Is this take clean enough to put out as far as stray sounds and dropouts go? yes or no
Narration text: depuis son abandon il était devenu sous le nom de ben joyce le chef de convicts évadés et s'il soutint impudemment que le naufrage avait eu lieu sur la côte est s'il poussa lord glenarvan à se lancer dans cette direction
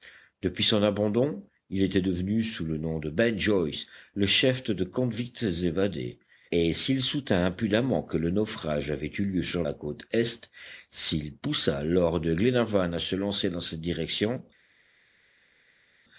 yes